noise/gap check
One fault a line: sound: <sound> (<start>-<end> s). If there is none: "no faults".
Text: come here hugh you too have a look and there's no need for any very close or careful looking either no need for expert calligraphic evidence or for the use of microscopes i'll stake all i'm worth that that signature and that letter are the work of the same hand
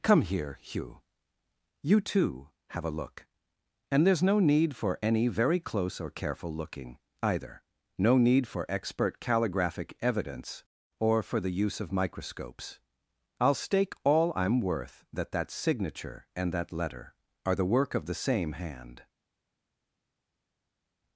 no faults